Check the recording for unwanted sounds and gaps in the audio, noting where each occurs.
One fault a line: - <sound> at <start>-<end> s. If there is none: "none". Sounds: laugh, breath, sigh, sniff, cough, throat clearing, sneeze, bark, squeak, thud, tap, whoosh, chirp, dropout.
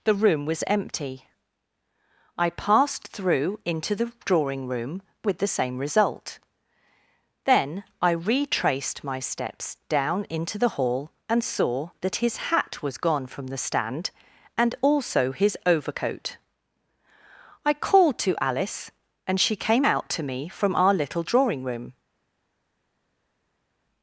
none